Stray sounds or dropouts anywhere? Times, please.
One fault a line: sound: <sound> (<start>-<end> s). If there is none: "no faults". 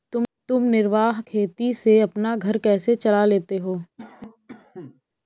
sound: cough (4.0-5.0 s)